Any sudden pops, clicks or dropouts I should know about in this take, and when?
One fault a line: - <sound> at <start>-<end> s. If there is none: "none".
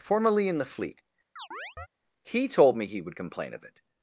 - chirp at 1.4-1.9 s